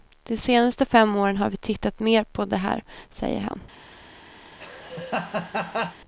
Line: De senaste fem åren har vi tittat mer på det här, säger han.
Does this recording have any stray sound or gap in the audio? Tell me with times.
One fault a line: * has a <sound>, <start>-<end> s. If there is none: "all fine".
* has a laugh, 4.4-6.0 s